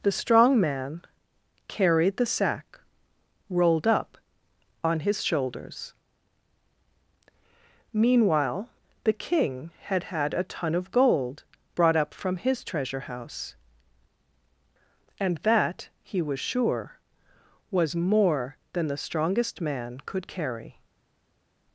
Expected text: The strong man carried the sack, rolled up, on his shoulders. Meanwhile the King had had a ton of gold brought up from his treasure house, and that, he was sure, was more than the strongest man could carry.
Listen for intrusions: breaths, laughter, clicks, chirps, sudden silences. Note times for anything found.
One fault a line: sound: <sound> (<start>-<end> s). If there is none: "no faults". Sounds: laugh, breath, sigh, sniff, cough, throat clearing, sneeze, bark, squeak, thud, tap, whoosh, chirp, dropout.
no faults